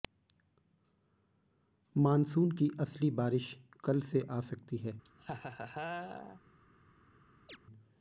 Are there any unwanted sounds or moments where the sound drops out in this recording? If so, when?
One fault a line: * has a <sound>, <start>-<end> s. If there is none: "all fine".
* has a laugh, 5.0-6.4 s
* has a chirp, 7.5-7.6 s